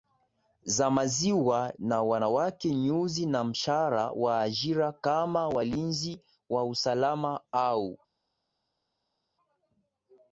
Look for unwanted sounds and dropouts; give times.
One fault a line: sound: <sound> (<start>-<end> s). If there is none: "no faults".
no faults